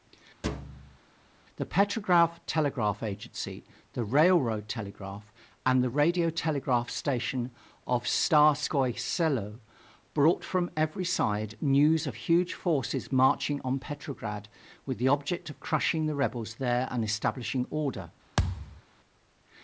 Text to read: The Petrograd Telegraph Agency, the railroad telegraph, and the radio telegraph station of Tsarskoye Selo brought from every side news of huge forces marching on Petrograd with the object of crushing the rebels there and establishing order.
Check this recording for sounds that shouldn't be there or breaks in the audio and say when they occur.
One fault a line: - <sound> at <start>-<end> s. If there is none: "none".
- thud at 0.4-1.0 s
- thud at 18.4-18.8 s